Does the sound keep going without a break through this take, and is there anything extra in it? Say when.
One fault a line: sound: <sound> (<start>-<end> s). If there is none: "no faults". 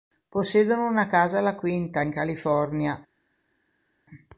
no faults